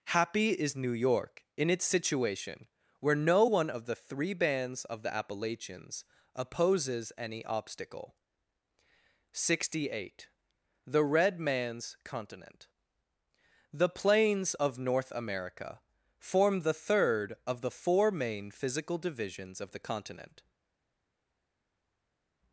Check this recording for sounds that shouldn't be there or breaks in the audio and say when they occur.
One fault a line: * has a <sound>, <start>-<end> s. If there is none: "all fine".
all fine